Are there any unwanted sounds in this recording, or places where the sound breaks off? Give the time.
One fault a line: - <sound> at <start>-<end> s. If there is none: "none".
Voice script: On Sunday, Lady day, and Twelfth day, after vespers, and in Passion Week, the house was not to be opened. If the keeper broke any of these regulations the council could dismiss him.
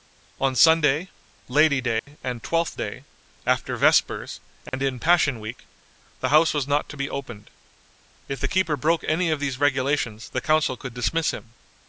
- dropout at 2.0-2.1 s
- dropout at 4.7-4.7 s